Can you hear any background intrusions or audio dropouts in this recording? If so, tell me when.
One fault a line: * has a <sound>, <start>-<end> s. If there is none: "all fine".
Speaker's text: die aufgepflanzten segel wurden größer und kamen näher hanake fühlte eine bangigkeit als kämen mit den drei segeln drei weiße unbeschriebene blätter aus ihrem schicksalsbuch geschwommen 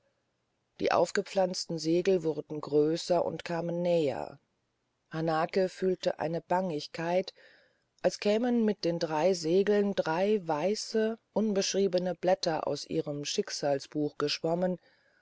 all fine